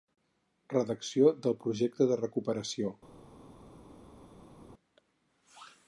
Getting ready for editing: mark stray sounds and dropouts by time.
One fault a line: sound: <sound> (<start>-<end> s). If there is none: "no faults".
no faults